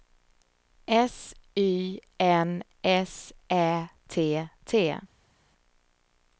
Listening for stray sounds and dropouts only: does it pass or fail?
pass